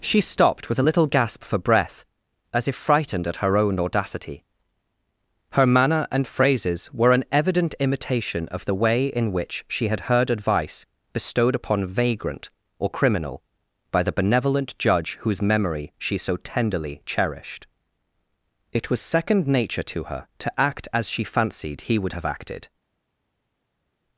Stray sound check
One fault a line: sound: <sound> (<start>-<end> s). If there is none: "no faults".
no faults